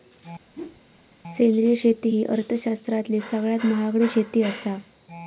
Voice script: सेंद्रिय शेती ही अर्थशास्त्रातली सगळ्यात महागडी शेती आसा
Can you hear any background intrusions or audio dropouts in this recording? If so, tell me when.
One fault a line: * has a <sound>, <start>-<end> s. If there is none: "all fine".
* has a whoosh, 0.5-0.8 s